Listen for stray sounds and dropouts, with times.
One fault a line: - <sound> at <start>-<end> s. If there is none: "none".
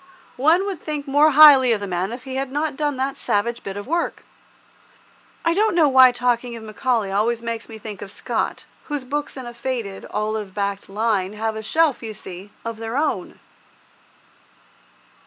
none